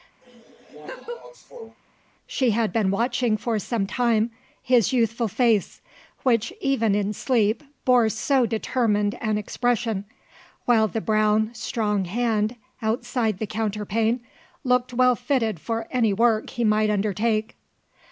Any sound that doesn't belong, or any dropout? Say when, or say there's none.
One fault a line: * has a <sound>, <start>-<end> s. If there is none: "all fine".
* has a laugh, 0.2-1.8 s